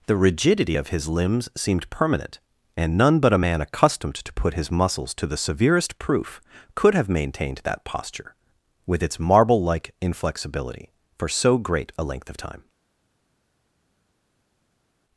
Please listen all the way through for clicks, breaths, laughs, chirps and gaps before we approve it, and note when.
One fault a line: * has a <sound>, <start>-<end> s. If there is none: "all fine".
all fine